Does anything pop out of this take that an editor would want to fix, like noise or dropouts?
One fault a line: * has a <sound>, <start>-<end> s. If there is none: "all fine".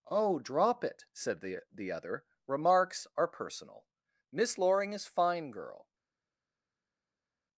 all fine